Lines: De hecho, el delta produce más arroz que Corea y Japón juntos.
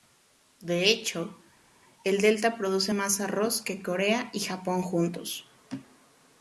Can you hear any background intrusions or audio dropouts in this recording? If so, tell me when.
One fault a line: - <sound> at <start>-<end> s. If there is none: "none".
none